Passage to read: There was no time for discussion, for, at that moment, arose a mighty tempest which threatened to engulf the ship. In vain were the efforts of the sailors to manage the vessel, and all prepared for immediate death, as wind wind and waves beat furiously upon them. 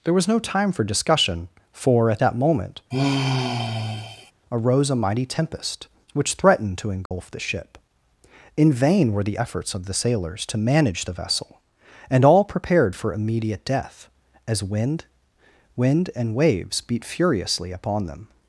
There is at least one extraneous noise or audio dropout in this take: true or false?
true